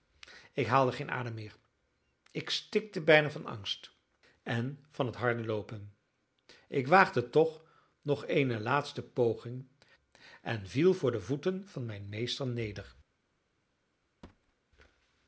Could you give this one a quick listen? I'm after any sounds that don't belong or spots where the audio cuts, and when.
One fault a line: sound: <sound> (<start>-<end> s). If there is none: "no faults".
sound: thud (14.2-14.5 s)